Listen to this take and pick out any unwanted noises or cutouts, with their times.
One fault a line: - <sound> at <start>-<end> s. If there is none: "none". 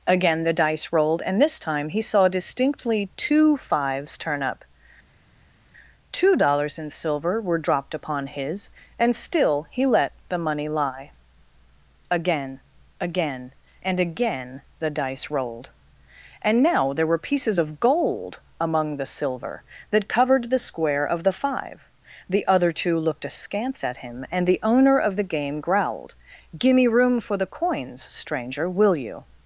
none